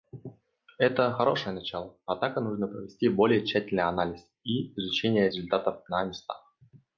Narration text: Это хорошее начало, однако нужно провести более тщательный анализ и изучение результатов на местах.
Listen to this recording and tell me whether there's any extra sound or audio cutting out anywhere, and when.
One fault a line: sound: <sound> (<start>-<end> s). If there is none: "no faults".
no faults